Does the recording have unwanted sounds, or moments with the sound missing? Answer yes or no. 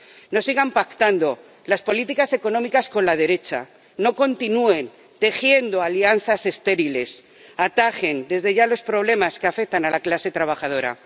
no